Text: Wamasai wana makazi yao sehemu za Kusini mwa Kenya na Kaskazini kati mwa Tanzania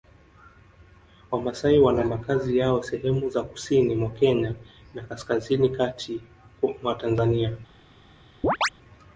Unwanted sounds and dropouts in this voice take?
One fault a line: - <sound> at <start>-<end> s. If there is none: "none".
- chirp at 8.4-8.7 s